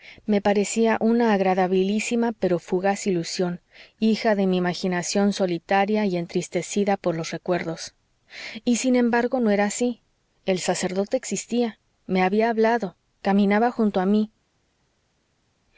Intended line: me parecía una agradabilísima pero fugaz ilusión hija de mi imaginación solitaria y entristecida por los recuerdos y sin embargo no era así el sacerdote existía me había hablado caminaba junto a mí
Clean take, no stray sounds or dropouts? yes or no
yes